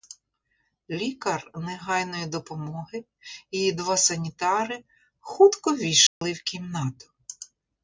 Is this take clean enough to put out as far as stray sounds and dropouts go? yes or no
no